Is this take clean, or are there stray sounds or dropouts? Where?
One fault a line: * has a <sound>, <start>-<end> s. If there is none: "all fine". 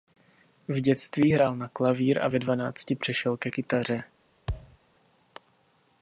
* has a thud, 4.5-4.8 s